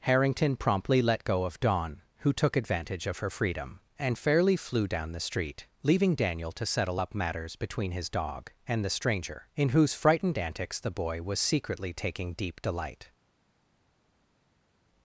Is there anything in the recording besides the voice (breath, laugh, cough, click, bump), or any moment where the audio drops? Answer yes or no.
no